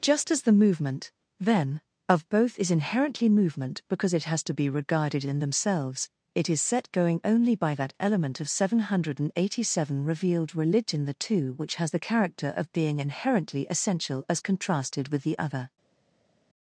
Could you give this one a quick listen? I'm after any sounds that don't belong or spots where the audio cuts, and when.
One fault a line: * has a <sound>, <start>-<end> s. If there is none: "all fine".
all fine